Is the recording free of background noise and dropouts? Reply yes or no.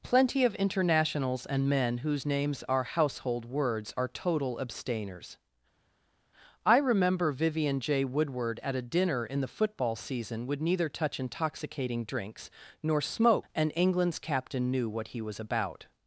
yes